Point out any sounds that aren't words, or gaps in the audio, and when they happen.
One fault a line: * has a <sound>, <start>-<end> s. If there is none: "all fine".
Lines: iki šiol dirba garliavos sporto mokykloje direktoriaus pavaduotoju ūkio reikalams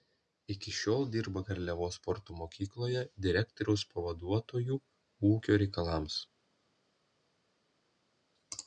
all fine